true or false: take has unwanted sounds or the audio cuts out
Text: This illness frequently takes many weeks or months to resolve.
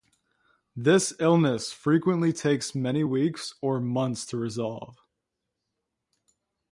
false